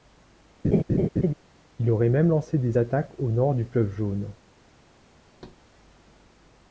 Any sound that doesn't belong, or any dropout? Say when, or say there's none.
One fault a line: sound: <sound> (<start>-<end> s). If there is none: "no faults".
sound: laugh (0.6-1.3 s)
sound: thud (5.3-5.6 s)